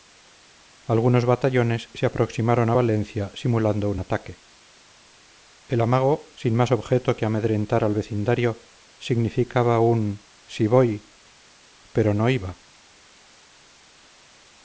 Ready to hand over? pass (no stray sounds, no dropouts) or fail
pass